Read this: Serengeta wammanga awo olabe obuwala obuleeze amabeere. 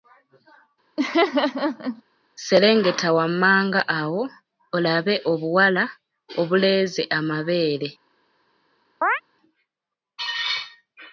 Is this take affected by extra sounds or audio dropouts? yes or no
yes